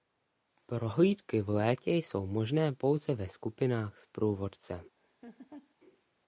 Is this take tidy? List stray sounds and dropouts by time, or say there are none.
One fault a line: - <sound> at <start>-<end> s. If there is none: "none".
- laugh at 5.0-5.8 s